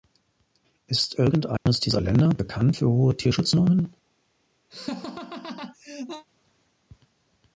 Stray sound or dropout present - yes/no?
yes